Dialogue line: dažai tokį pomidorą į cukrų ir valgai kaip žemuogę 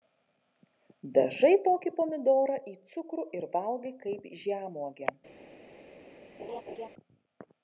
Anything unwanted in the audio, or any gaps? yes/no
yes